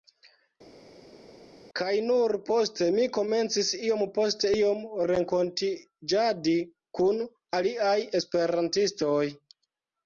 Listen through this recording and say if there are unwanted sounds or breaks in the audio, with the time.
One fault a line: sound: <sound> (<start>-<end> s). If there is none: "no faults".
no faults